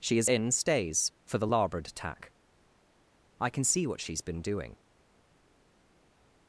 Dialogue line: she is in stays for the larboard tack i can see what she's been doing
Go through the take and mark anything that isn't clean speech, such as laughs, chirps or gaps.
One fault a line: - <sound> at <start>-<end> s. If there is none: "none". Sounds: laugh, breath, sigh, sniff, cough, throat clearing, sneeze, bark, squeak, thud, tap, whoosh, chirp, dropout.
none